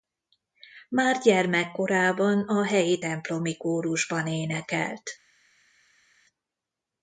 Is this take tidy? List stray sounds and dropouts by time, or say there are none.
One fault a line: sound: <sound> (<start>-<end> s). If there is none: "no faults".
no faults